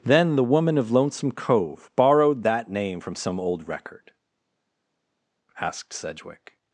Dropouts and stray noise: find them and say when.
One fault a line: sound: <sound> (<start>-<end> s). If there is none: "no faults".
no faults